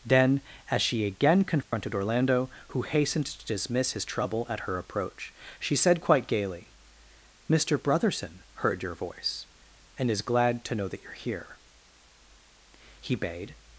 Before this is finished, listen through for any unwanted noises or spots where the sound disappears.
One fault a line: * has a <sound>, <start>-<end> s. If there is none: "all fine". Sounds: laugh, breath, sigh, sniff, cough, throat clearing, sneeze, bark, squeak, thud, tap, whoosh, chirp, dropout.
* has a dropout, 1.6-1.7 s